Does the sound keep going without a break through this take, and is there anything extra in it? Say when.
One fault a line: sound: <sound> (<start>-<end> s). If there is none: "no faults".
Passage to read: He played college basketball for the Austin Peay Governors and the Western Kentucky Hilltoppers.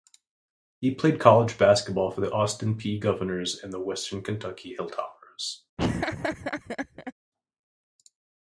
sound: laugh (5.8-7.1 s)